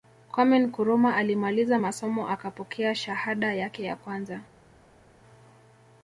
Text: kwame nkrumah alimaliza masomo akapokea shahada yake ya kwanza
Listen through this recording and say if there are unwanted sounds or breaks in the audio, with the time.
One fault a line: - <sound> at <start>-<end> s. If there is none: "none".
none